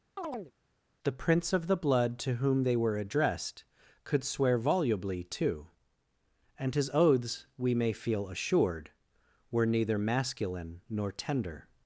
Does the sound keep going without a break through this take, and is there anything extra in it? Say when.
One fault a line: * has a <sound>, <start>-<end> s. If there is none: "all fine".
* has a chirp, 0.2-0.5 s